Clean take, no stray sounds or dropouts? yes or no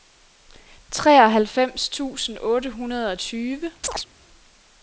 no